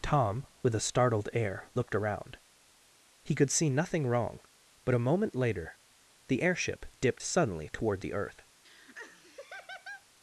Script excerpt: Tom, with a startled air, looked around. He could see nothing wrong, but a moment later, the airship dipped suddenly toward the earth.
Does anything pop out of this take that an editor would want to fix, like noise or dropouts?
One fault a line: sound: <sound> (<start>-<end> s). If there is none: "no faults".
sound: laugh (8.6-10.1 s)